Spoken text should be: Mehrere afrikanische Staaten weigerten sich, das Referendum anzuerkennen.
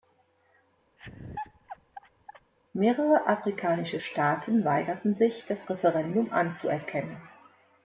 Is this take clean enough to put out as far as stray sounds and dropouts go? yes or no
no